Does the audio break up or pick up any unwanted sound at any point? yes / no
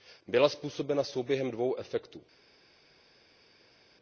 no